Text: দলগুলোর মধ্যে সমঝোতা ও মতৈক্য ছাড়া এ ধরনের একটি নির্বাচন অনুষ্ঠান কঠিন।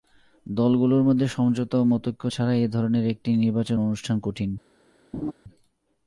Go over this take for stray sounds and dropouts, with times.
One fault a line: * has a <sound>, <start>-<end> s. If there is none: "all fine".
* has a laugh, 5.1-5.3 s